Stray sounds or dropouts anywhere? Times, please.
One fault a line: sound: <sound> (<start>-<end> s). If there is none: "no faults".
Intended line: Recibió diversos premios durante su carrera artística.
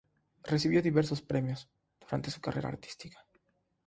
no faults